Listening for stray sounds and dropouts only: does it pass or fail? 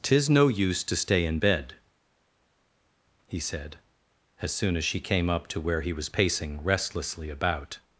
pass